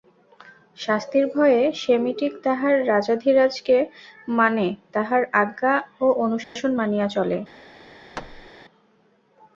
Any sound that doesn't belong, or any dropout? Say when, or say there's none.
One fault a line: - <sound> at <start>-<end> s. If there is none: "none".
- dropout at 6.4-6.6 s
- thud at 8.1-8.5 s